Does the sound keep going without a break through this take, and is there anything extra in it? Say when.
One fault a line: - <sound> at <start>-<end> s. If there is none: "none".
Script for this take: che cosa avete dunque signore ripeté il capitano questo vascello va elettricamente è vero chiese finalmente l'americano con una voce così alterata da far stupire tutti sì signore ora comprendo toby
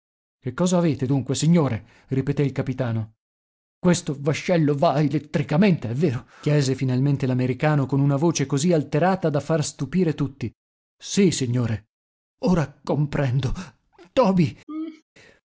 - laugh at 14.7-15.0 s